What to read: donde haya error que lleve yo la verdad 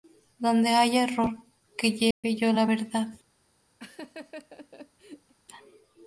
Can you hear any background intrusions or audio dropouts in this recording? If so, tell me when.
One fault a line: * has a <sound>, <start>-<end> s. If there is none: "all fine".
* has a dropout, 2.1-2.2 s
* has a laugh, 3.8-5.3 s